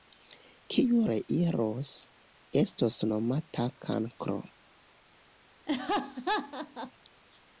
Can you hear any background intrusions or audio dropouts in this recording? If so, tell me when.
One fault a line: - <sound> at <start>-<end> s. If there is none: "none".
- laugh at 5.7-6.9 s